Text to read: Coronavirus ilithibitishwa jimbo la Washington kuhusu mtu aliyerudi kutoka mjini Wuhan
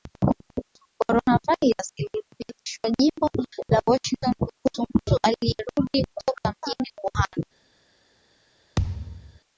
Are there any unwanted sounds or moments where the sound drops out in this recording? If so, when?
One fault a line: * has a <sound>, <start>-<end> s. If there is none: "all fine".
* has a thud, 8.8-9.4 s